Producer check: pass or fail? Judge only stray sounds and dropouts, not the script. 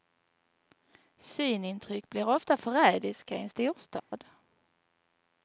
fail